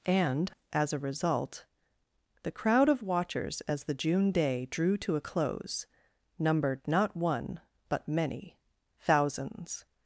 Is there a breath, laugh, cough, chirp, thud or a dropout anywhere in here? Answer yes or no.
no